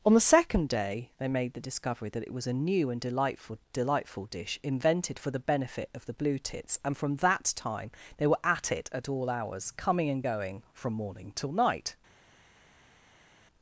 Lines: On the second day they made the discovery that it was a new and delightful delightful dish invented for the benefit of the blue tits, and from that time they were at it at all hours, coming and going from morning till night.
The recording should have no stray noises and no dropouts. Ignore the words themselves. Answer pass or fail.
pass